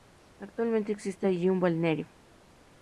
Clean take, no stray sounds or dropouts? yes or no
yes